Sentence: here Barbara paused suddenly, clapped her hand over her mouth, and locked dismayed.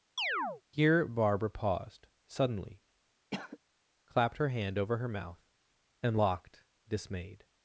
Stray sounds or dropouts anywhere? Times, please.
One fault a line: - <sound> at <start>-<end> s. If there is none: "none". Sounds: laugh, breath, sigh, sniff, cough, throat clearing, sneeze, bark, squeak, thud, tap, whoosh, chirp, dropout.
- chirp at 0.2-0.6 s
- cough at 3.3-3.6 s